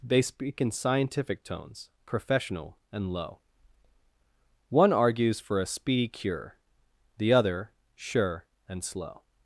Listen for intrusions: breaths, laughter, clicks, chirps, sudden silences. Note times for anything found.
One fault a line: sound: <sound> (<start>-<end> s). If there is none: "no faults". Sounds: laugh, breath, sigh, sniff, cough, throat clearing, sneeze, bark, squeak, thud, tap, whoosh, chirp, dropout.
no faults